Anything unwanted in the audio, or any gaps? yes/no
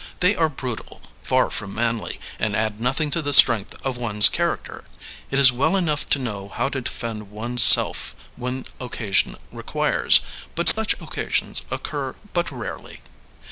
yes